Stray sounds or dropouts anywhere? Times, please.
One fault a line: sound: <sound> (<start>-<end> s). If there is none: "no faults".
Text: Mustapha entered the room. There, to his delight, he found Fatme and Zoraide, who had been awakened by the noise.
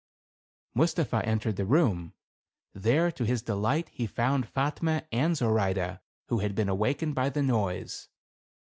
no faults